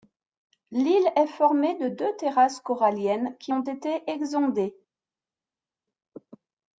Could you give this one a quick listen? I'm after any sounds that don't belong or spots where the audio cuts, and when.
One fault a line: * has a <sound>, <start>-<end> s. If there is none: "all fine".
all fine